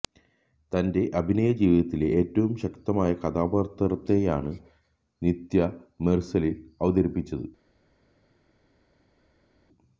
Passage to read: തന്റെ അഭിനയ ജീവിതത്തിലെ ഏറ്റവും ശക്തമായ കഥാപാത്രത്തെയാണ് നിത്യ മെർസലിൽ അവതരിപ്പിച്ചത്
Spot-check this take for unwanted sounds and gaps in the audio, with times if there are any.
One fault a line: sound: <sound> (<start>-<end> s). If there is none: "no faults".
no faults